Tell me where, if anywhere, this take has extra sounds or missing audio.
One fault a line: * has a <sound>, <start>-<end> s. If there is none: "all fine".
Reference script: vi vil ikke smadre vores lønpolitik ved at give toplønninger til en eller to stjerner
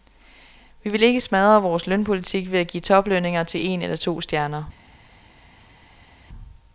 all fine